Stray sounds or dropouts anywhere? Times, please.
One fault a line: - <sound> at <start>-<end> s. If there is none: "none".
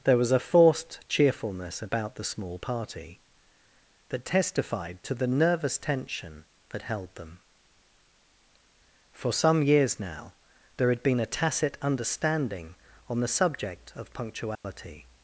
- dropout at 14.6-14.6 s